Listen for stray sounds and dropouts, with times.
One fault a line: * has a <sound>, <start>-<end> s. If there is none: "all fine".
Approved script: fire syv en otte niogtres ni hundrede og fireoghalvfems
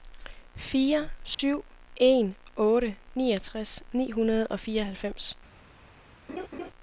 * has a dropout, 1.3-1.4 s
* has a laugh, 6.3-6.7 s